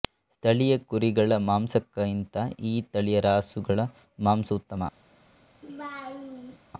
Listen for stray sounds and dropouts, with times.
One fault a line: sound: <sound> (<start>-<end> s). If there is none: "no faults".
sound: laugh (5.6-6.6 s)